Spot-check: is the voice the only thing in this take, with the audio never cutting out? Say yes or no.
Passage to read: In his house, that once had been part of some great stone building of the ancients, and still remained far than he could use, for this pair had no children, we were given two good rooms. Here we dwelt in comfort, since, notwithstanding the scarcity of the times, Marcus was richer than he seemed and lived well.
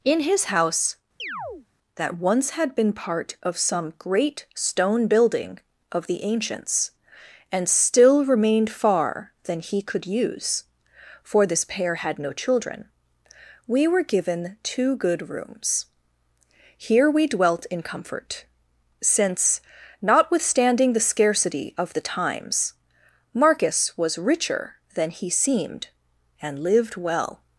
no